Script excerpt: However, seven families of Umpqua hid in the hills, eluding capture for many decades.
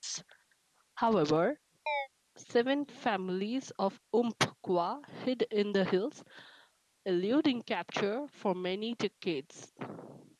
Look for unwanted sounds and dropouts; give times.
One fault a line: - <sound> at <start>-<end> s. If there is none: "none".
- chirp at 1.9-2.1 s